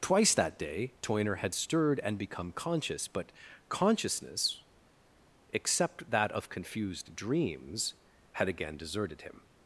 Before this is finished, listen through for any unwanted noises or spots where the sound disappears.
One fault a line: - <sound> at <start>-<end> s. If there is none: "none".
none